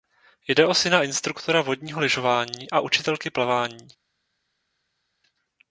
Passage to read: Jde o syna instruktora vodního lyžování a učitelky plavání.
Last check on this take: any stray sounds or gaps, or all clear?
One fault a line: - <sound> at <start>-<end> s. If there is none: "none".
none